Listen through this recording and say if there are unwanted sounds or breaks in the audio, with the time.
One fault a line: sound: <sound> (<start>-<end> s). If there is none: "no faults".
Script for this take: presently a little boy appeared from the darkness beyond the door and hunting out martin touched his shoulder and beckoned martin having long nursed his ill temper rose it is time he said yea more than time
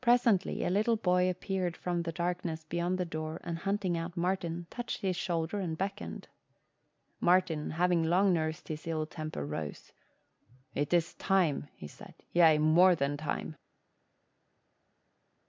no faults